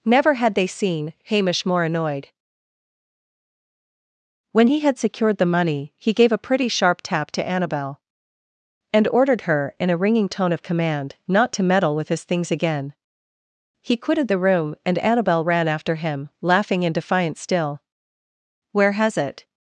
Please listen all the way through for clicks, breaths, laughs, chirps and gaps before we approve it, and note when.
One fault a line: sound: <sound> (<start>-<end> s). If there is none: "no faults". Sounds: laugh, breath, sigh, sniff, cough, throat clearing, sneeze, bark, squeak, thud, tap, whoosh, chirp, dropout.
no faults